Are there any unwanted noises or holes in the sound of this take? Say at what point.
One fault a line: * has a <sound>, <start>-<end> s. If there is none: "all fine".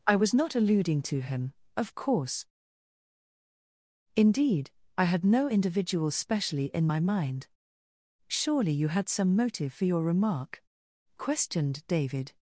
all fine